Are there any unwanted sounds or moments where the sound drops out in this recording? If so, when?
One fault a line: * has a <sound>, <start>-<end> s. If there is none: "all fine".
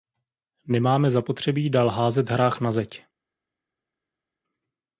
all fine